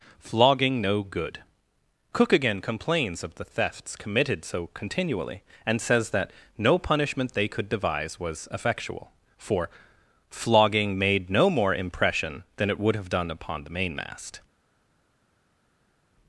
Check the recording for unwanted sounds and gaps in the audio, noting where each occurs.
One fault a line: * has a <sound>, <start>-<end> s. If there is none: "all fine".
all fine